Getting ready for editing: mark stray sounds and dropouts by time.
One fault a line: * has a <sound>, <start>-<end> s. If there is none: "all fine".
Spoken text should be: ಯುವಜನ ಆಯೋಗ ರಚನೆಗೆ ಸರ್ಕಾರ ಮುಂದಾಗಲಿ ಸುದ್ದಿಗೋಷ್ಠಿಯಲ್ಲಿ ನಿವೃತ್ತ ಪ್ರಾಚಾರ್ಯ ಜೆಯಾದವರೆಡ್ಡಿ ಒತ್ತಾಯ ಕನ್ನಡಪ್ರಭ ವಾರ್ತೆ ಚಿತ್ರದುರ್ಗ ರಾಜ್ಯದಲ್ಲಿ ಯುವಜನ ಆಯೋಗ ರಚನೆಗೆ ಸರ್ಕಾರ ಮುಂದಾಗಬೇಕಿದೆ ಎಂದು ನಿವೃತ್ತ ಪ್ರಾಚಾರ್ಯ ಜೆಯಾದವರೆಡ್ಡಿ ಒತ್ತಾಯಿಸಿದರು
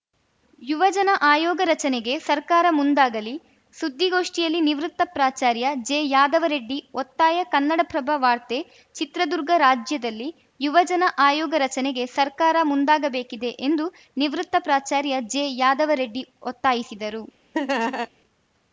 * has a laugh, 17.5-18.1 s